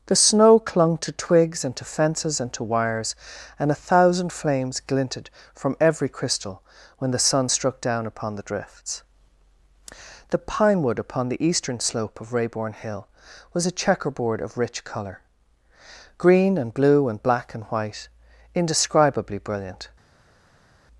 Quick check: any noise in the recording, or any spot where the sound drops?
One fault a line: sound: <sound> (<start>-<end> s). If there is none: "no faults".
no faults